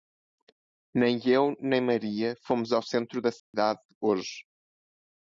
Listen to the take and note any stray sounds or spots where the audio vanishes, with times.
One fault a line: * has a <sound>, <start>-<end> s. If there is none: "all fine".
* has a dropout, 3.4-3.5 s